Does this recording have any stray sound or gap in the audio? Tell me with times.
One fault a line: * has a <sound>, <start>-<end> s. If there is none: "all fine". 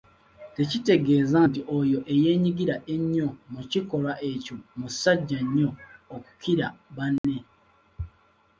* has a dropout, 7.2-7.2 s